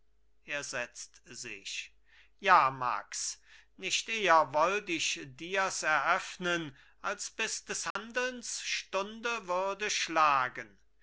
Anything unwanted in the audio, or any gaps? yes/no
yes